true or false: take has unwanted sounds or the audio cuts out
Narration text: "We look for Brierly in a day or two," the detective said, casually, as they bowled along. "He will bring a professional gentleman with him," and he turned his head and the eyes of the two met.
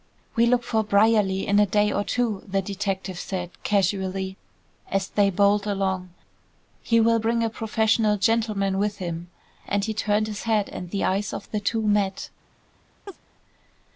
true